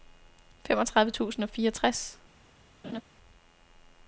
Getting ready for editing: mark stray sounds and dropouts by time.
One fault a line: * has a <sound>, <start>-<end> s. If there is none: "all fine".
* has a laugh, 2.8-3.0 s